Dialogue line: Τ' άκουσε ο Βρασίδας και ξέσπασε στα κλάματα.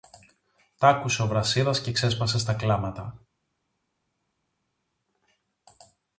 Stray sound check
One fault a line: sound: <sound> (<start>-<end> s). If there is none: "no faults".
no faults